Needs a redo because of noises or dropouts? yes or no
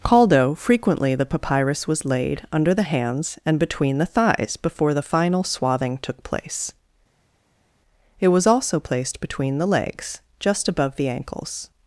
no